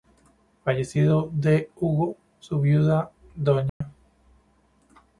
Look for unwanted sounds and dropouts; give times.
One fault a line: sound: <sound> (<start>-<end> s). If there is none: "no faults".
sound: dropout (3.7-3.8 s)